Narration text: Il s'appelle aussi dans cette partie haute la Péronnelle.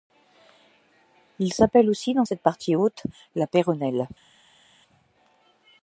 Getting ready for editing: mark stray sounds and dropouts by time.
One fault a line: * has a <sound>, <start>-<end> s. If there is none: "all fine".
all fine